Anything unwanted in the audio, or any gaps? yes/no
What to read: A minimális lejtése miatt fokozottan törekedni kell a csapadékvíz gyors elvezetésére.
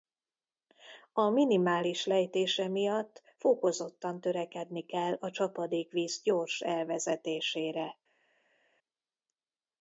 no